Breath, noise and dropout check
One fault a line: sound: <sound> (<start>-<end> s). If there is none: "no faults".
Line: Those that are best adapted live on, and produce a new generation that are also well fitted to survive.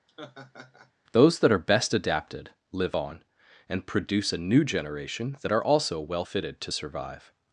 sound: laugh (0.1-0.9 s)